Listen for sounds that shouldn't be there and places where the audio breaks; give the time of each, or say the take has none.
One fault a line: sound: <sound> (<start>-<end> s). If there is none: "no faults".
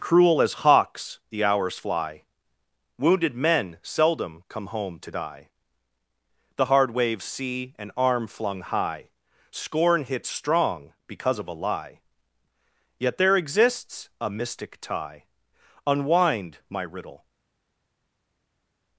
no faults